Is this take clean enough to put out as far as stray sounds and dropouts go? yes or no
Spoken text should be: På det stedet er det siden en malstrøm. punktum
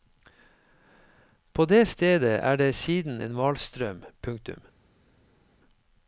yes